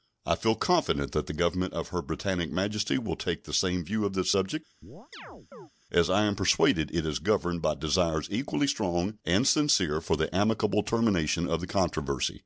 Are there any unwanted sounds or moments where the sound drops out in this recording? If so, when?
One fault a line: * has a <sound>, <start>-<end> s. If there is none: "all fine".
* has a chirp, 4.8-5.7 s